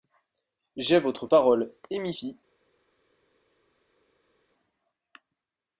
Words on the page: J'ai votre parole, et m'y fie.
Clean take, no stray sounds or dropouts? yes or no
yes